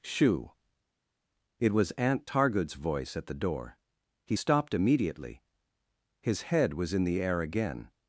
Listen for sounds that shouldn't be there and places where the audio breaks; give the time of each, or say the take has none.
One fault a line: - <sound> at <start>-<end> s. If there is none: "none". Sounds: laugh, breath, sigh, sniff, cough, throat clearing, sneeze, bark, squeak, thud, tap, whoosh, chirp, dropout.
none